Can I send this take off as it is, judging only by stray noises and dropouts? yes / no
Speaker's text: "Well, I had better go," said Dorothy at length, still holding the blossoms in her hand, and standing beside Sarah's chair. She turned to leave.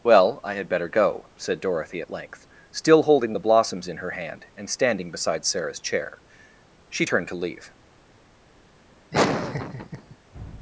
no